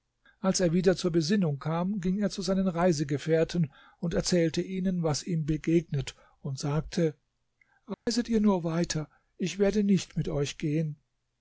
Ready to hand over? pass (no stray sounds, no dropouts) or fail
fail